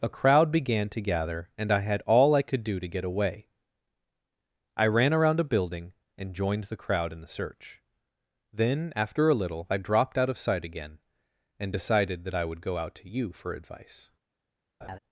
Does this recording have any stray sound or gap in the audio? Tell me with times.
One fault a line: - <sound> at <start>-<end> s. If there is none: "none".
- laugh at 14.8-15.0 s